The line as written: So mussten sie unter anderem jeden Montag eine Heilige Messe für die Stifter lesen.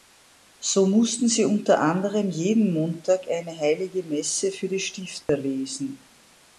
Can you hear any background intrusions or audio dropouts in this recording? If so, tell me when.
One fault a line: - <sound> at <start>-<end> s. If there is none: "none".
- dropout at 5.2-5.3 s